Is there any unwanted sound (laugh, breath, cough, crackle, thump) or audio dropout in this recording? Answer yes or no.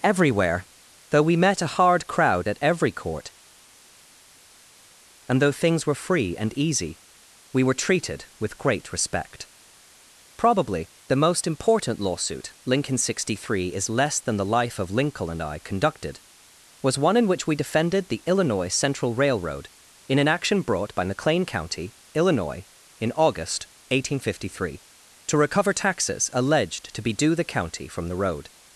no